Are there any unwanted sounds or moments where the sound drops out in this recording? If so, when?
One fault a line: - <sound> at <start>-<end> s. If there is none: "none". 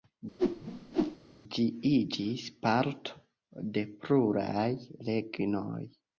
- whoosh at 0.4-1.2 s